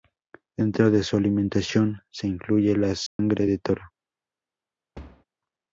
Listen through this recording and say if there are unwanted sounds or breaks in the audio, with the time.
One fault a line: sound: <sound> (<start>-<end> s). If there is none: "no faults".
sound: dropout (3.1-3.2 s)
sound: thud (4.9-5.2 s)